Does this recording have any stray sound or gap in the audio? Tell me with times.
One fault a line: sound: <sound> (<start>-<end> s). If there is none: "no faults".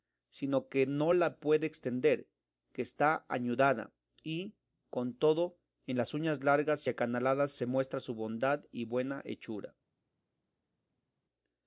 no faults